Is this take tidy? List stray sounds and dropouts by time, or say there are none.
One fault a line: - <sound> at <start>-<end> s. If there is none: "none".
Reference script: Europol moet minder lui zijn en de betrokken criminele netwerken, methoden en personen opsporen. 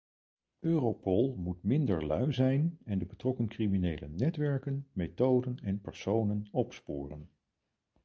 none